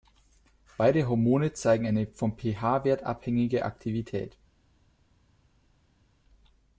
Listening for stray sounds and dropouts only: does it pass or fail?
pass